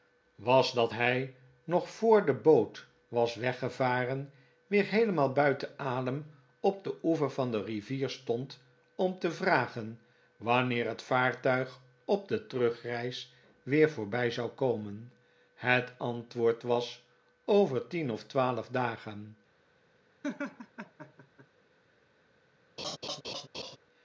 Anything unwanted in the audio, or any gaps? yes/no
yes